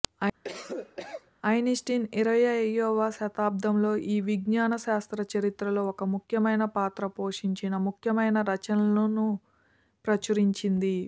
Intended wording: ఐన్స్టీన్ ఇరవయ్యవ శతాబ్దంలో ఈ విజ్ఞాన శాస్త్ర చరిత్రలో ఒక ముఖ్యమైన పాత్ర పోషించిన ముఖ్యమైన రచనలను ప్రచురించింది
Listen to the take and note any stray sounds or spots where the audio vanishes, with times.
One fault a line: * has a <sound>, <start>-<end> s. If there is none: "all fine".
* has a cough, 0.4-1.3 s